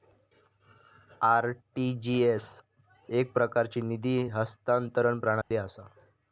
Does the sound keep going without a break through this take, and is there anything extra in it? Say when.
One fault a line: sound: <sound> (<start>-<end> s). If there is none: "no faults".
sound: dropout (5.4-5.5 s)